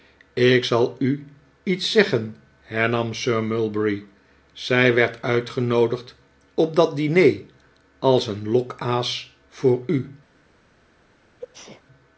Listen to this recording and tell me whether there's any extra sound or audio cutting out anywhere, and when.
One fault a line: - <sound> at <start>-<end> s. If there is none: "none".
- sneeze at 11.4-11.8 s